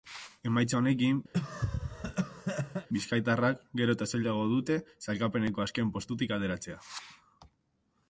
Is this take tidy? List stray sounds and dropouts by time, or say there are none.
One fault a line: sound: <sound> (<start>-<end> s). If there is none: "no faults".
sound: cough (1.3-2.9 s)